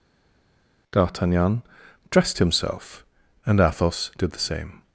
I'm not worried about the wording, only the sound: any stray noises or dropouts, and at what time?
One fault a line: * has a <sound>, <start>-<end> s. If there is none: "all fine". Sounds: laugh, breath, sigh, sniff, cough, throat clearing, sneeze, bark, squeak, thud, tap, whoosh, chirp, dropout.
all fine